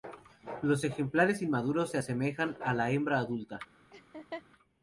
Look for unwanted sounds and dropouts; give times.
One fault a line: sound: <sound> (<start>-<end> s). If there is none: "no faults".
sound: laugh (3.9-4.4 s)